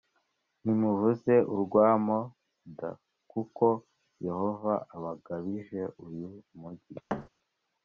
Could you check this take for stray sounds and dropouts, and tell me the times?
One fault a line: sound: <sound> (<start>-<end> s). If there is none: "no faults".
sound: thud (7.1-7.3 s)